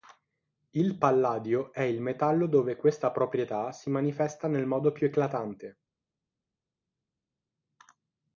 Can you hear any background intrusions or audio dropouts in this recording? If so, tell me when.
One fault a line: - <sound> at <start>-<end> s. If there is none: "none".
none